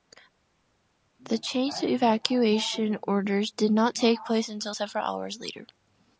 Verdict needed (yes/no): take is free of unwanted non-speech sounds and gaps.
yes